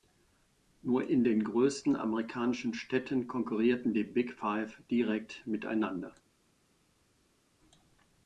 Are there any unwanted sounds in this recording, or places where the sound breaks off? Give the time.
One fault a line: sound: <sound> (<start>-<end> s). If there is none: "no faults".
no faults